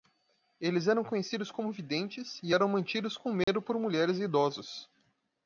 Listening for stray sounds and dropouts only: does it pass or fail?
fail